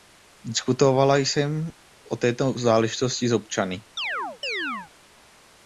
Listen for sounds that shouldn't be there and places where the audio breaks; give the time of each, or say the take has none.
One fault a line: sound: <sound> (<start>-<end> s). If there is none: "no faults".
sound: chirp (4.0-4.9 s)